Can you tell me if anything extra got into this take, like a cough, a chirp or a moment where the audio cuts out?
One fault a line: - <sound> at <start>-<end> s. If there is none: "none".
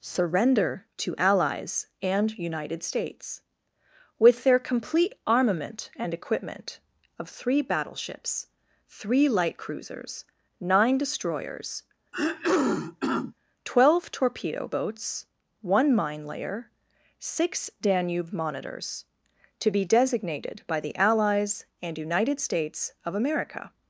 - throat clearing at 12.1-13.3 s